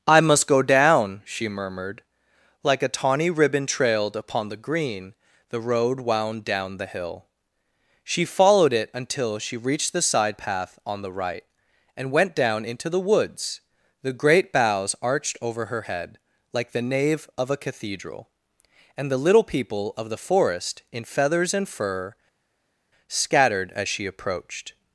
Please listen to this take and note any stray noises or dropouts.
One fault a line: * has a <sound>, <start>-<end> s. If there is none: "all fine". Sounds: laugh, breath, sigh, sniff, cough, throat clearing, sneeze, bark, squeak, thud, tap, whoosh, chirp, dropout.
all fine